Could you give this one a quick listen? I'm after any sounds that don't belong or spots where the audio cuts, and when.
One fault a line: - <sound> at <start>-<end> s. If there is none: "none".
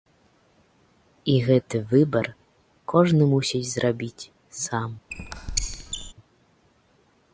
- squeak at 5.1-6.1 s